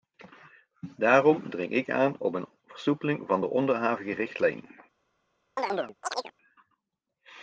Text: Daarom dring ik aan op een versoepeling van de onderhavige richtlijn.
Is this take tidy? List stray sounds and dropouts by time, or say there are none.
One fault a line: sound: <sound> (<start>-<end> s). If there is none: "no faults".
sound: chirp (5.6-6.3 s)